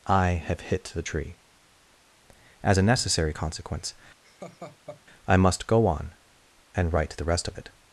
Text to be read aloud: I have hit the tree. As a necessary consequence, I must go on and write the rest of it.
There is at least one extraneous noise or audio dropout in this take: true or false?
true